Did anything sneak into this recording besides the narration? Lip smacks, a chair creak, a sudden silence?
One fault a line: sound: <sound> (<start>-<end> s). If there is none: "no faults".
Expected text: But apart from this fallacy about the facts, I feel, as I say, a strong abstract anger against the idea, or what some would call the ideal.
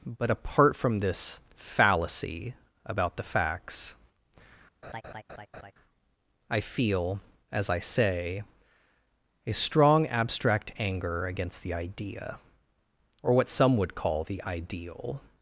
sound: laugh (4.8-5.7 s)